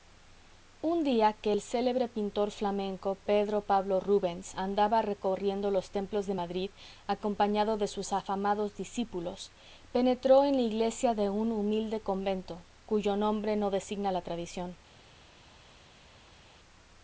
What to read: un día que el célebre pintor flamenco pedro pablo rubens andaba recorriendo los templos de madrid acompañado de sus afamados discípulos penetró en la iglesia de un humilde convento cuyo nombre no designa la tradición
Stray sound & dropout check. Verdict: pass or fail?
pass